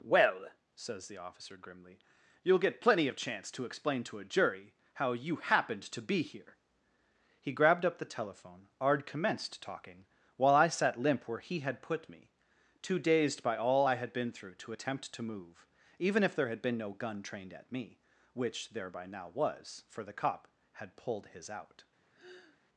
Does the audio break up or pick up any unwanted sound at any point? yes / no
yes